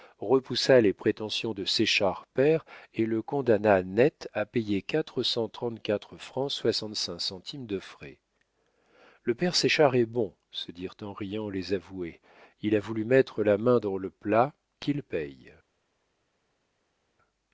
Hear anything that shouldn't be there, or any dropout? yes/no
no